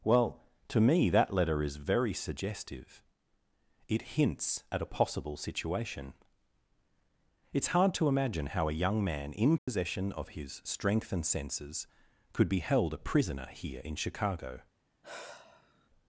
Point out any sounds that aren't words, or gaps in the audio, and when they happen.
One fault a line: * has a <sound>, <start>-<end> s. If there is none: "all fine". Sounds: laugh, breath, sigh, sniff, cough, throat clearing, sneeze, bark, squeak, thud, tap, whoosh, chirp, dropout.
* has a dropout, 9.6-9.7 s
* has a sigh, 15.0-15.9 s